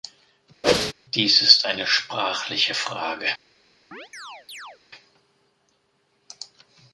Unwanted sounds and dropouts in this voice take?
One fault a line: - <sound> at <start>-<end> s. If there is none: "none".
- whoosh at 0.6-0.9 s
- chirp at 3.9-4.8 s